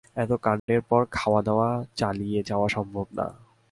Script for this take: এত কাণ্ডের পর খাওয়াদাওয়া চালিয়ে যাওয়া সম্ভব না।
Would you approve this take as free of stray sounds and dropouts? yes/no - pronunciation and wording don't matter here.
no